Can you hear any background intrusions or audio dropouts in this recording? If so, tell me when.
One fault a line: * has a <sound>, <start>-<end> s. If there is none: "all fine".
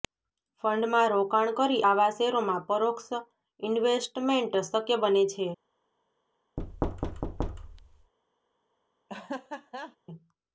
* has a thud, 6.6-8.1 s
* has a laugh, 9.1-10.0 s